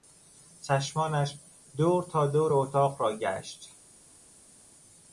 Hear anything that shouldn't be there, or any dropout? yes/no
no